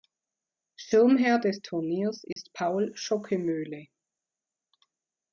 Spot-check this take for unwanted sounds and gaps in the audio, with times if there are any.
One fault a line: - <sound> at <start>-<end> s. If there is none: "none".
- dropout at 2.3-2.4 s